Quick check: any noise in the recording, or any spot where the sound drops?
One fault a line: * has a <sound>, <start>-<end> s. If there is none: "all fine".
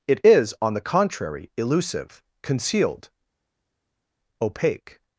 all fine